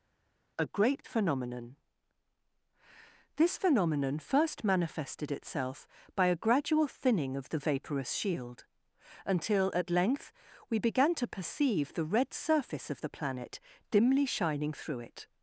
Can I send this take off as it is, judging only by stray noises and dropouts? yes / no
yes